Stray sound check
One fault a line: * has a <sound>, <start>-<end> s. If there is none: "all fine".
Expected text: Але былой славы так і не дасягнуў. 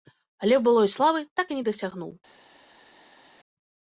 all fine